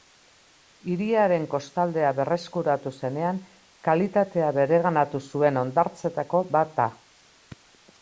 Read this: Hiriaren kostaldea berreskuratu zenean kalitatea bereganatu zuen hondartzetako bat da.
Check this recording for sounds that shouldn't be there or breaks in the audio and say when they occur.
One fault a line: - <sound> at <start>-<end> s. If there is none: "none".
none